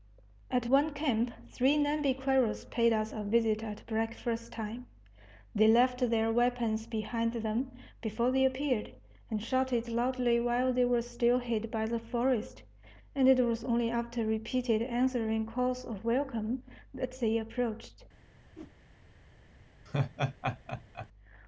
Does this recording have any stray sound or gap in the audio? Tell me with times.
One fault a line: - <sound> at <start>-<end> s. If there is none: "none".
- whoosh at 18.5-18.7 s
- laugh at 19.9-21.1 s